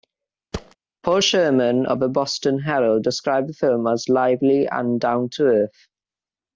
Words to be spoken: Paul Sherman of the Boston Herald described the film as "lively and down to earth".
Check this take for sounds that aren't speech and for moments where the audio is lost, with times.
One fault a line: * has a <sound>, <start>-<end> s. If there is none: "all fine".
* has a thud, 0.5-0.8 s